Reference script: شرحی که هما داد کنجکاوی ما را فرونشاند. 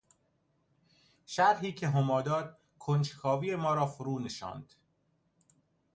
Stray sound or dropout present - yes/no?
no